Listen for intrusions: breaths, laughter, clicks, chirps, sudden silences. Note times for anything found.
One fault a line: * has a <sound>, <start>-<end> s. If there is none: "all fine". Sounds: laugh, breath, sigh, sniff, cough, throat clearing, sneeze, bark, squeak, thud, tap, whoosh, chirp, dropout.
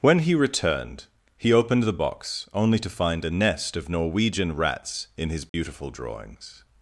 * has a dropout, 5.5-5.5 s